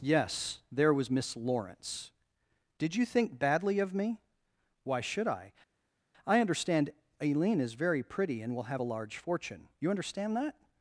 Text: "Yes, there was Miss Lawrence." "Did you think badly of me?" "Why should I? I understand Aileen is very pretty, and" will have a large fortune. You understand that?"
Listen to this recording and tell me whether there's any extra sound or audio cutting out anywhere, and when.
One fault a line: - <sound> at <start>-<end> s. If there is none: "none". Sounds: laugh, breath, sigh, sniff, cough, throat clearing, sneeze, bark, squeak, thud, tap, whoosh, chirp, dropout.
none